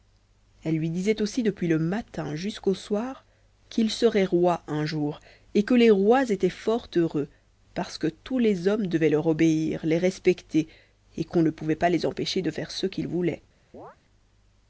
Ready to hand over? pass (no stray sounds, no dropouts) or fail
fail